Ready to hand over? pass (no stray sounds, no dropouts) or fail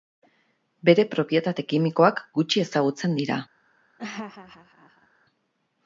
fail